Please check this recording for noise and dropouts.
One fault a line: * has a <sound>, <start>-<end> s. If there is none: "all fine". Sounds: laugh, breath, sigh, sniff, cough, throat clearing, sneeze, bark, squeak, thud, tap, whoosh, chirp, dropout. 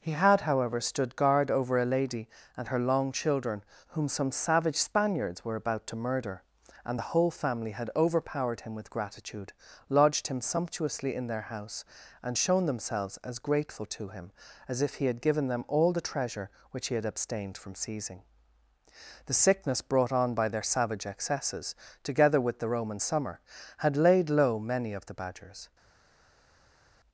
all fine